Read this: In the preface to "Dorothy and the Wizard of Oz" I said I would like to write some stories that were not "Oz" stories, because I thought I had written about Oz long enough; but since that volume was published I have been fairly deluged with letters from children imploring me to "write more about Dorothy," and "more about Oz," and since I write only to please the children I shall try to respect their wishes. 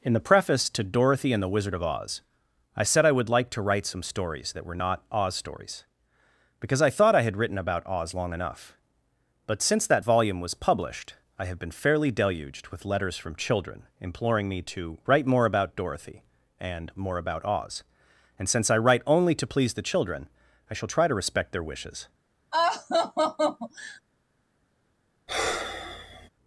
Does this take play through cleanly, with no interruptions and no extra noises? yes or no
no